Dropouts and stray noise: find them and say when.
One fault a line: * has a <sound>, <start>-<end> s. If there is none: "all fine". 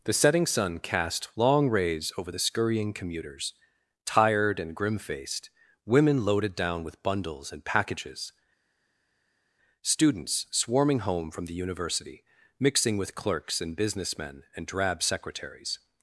all fine